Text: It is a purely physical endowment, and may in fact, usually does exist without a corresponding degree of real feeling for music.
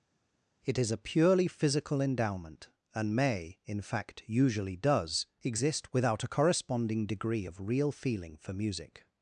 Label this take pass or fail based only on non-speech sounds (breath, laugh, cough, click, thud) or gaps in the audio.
pass